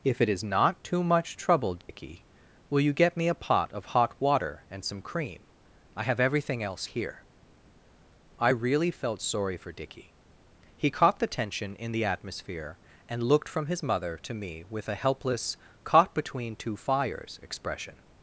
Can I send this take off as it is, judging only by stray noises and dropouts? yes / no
no